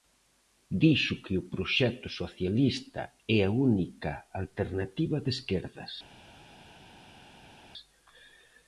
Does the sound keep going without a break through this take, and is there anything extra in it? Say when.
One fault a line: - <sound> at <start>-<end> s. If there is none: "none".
none